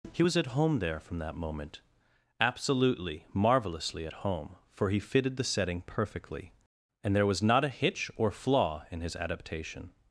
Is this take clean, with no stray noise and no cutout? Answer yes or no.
yes